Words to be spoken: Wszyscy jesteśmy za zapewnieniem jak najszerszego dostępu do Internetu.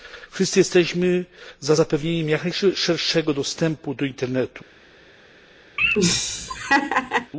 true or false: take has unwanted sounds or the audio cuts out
true